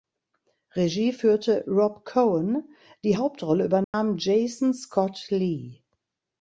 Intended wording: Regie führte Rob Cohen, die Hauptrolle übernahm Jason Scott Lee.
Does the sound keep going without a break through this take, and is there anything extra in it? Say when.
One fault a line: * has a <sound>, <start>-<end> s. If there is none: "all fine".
* has a dropout, 3.8-3.9 s